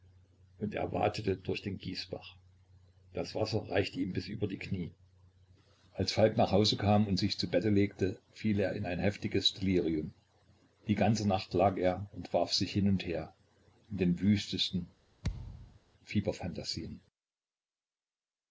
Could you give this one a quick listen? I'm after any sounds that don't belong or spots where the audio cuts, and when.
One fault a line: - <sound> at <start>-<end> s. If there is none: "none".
- thud at 15.2-15.8 s